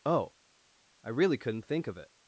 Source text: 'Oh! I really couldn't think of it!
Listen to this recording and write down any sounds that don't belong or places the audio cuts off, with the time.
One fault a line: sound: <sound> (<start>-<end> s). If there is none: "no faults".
no faults